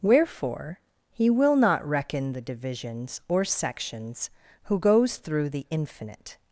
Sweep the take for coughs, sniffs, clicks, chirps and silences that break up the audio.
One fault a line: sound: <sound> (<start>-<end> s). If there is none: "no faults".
no faults